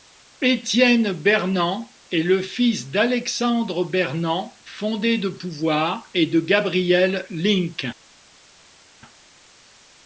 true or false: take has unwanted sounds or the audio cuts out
false